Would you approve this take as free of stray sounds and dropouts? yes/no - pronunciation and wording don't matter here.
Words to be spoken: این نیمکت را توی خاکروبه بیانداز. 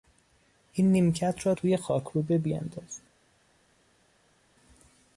yes